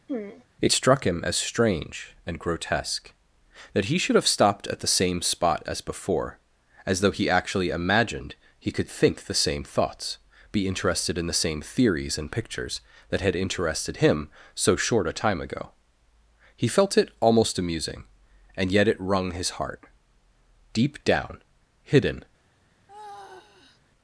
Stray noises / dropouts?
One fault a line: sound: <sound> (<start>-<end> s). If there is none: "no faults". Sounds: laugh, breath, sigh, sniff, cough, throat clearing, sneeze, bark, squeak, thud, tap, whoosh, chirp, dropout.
sound: throat clearing (0.1-0.5 s)
sound: sigh (22.9-23.8 s)